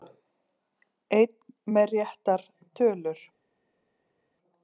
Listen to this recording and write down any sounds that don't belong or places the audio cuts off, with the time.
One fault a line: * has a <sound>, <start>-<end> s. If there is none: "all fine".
all fine